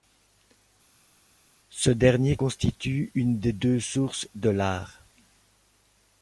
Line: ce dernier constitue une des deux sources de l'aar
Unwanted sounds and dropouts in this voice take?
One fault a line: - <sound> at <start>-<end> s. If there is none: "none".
none